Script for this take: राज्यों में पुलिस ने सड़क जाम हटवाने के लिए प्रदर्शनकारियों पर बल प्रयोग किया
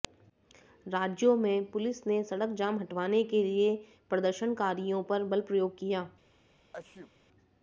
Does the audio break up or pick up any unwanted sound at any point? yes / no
yes